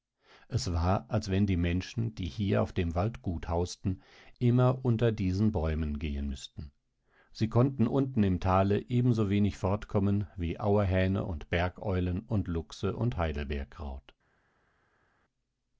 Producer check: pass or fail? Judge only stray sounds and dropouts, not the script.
pass